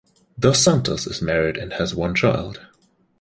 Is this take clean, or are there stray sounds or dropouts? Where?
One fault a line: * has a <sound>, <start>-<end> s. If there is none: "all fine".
all fine